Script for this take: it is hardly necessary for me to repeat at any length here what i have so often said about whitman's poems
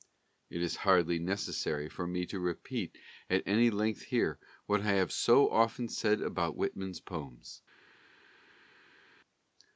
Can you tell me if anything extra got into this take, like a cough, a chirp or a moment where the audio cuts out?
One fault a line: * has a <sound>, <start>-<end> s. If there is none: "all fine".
all fine